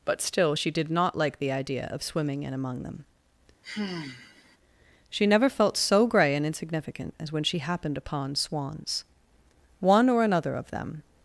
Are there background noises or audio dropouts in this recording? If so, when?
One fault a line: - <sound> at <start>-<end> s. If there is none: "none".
- sigh at 3.6-4.6 s